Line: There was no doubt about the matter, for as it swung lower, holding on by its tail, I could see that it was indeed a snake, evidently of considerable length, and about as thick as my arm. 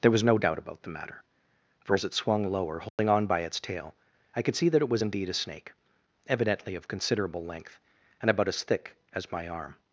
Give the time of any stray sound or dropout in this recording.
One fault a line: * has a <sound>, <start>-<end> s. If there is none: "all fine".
* has a dropout, 2.9-3.0 s